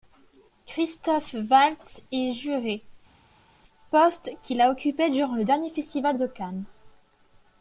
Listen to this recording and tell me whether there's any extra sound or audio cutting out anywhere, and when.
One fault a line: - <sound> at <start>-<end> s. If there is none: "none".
none